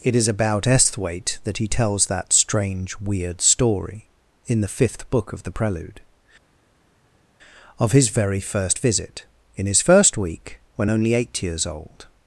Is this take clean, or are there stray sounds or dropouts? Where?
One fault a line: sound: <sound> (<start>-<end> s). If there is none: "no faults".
no faults